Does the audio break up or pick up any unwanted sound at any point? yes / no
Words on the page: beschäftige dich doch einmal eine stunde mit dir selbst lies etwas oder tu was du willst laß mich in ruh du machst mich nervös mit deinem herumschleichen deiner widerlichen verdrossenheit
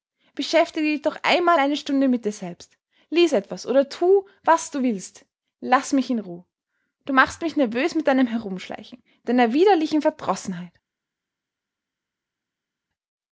no